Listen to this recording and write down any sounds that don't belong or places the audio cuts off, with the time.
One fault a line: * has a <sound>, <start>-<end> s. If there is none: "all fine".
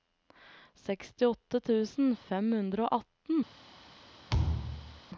* has a thud, 4.3-5.0 s